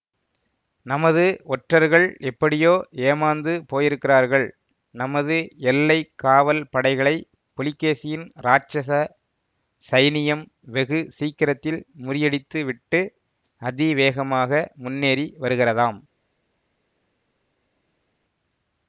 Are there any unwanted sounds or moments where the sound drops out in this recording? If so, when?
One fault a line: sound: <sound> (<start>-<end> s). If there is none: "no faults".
no faults